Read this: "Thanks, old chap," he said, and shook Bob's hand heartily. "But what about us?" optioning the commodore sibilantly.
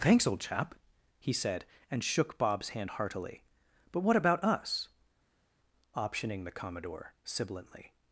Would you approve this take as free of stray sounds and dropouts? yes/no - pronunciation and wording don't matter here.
yes